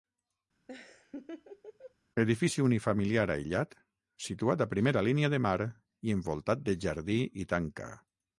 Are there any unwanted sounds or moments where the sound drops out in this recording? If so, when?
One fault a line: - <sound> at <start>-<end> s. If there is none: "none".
- laugh at 0.7-1.9 s